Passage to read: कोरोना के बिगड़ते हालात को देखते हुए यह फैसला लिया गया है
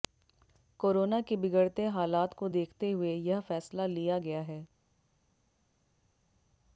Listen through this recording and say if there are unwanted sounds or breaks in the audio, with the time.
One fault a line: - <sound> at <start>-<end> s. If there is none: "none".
none